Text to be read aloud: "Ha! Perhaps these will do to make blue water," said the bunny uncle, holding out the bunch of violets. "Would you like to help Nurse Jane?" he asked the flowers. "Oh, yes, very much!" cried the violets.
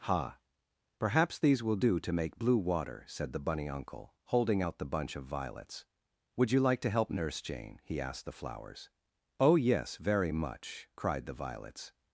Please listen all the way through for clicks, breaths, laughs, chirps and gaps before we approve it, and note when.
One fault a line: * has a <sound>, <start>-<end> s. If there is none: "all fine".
all fine